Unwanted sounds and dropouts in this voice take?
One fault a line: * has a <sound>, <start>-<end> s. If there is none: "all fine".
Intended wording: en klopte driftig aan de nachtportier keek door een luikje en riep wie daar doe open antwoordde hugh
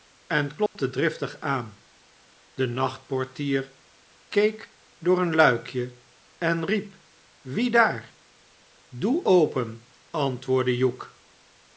* has a dropout, 0.7-0.8 s